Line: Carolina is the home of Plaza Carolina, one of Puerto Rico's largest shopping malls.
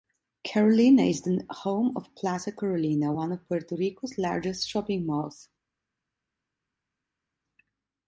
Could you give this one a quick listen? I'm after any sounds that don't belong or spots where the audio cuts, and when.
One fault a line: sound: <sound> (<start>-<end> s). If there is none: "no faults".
no faults